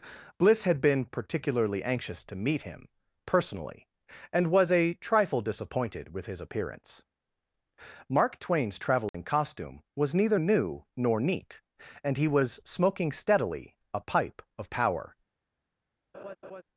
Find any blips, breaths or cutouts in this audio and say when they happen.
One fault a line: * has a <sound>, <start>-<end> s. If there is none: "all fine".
* has a dropout, 9.1-9.1 s
* has a laugh, 16.1-16.6 s